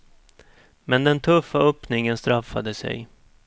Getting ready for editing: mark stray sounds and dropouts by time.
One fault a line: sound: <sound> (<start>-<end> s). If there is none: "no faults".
no faults